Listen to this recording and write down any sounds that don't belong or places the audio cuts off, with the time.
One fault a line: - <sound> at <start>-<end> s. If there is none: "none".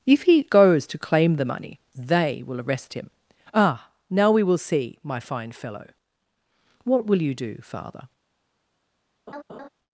- laugh at 9.3-9.7 s